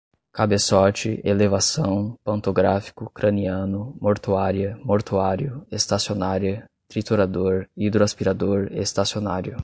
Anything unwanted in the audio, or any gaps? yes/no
no